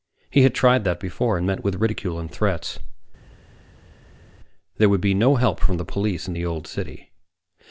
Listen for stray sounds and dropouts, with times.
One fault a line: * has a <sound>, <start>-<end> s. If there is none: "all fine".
all fine